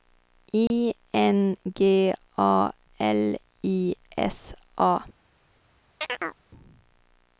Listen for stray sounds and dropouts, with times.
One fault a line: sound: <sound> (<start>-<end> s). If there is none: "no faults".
sound: dropout (0.7-0.7 s)
sound: chirp (6.0-6.4 s)